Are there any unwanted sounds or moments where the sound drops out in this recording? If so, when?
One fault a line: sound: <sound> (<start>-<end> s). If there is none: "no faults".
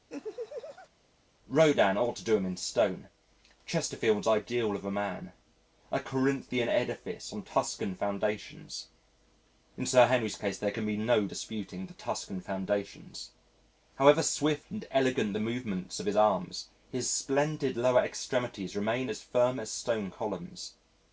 sound: laugh (0.1-0.9 s)